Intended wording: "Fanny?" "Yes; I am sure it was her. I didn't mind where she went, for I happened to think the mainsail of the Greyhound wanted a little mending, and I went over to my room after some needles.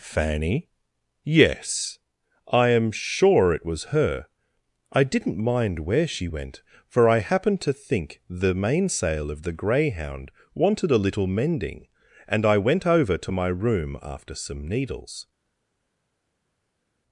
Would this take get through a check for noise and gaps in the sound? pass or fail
pass